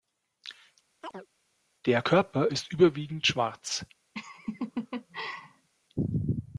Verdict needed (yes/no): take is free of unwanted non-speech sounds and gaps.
no